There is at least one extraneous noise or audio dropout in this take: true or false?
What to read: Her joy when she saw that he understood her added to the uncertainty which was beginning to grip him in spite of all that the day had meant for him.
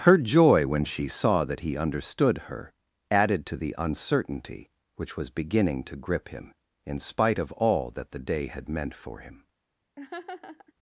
true